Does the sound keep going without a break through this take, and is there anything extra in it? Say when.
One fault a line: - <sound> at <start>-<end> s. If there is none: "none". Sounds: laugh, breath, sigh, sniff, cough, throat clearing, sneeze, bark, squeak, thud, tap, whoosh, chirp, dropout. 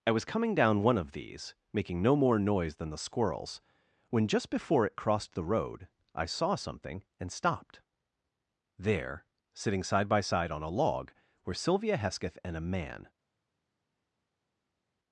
none